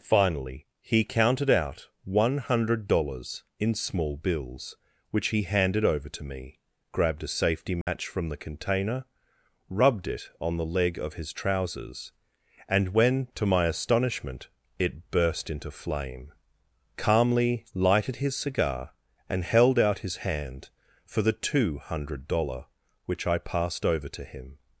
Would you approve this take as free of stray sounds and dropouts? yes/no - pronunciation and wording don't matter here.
no